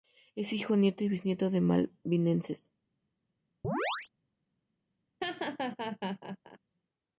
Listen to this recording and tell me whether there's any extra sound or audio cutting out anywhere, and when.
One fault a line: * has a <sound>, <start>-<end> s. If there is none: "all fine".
* has a chirp, 3.6-4.1 s
* has a laugh, 5.2-6.6 s